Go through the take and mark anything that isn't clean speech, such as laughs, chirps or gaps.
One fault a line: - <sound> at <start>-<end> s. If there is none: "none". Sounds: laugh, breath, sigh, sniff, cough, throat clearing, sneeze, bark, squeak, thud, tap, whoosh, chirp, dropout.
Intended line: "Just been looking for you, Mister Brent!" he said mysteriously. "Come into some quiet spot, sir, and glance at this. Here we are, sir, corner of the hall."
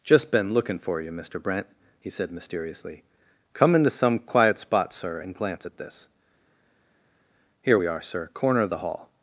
none